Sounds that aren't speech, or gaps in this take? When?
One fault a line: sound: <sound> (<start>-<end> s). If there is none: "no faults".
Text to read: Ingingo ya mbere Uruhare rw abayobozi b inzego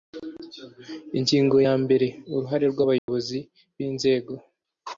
sound: dropout (3.0-3.1 s)